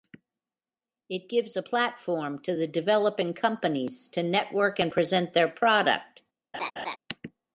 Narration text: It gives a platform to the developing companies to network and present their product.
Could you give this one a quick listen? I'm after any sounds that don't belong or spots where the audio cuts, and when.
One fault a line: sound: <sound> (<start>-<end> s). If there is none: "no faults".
sound: laugh (6.5-7.0 s)